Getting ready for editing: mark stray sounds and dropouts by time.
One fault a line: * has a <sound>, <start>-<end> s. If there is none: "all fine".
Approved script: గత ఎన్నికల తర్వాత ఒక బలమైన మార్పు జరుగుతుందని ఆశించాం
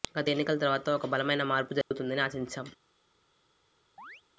* has a dropout, 1.8-1.9 s
* has a chirp, 4.0-4.2 s